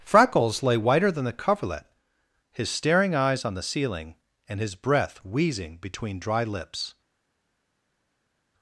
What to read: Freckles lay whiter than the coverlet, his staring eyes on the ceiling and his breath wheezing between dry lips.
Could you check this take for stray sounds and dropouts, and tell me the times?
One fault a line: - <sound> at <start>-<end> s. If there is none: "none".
none